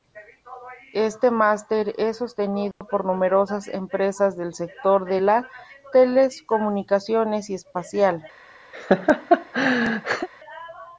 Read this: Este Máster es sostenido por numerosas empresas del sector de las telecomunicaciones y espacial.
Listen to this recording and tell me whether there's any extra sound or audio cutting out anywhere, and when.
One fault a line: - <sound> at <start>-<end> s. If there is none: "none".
- dropout at 2.7-2.8 s
- laugh at 8.7-10.3 s